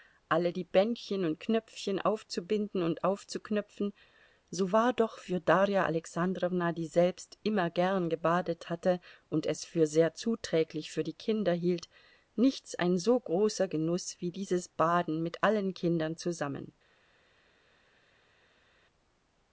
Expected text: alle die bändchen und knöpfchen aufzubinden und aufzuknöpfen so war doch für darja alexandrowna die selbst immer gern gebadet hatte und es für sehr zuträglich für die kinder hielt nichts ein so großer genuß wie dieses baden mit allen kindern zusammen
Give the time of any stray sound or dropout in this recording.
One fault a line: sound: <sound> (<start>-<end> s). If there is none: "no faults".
no faults